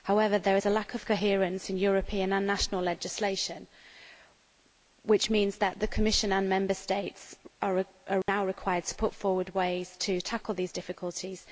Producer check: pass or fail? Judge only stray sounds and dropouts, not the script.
fail